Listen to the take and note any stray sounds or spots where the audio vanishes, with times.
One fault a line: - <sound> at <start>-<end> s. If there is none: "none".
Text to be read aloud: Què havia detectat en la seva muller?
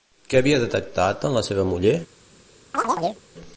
- chirp at 2.7-3.2 s